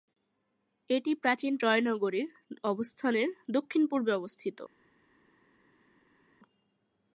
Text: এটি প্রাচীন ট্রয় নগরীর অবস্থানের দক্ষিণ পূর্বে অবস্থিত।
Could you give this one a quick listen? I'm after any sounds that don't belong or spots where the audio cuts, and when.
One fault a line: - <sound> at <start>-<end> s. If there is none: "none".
none